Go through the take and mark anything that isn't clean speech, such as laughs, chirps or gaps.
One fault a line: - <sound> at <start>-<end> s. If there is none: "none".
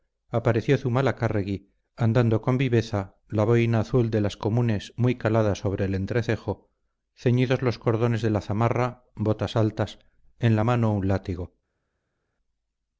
none